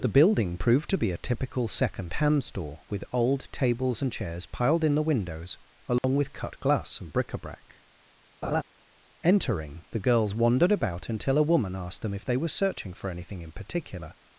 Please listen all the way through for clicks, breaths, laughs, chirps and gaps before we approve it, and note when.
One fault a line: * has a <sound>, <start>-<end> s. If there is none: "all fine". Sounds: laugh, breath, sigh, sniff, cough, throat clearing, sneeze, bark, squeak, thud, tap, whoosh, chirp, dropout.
* has a dropout, 6.0-6.0 s
* has a laugh, 8.4-8.6 s